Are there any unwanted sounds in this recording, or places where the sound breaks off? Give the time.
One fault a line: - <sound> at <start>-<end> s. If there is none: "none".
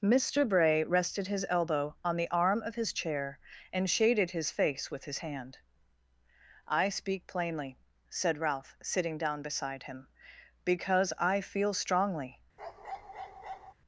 - bark at 12.6-13.7 s